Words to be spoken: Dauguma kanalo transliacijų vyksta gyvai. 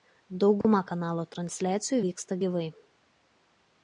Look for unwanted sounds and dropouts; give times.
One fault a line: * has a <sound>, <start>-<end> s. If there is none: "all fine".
* has a dropout, 0.6-0.6 s